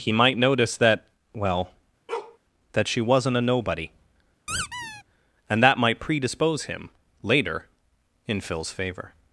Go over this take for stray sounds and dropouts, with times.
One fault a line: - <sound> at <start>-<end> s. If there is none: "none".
- bark at 2.1-2.4 s
- squeak at 4.5-5.0 s